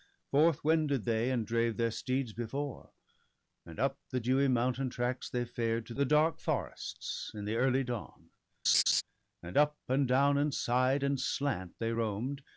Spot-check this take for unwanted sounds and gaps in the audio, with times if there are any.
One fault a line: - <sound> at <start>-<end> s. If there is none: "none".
- laugh at 8.6-9.0 s